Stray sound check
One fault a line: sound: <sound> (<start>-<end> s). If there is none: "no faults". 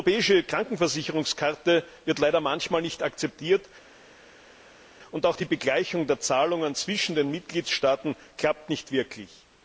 no faults